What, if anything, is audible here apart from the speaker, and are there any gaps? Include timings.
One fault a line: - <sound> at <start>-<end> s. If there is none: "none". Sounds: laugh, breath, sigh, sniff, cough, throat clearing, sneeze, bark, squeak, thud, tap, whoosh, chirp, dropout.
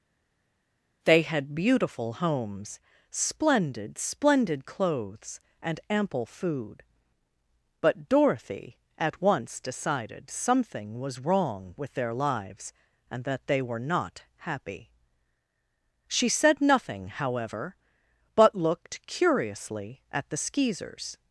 none